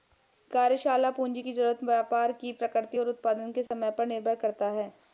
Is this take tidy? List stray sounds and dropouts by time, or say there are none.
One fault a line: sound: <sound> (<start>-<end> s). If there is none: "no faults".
sound: dropout (3.7-3.7 s)